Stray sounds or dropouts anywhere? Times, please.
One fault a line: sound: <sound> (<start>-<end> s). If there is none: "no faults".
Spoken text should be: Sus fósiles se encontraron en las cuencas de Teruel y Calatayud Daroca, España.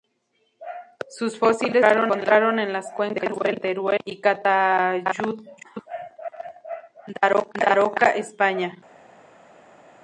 no faults